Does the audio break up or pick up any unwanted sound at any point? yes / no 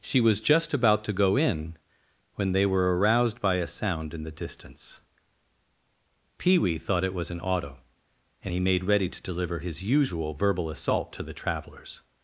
no